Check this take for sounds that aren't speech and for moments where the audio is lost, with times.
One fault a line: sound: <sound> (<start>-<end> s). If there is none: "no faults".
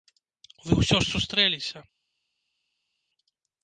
no faults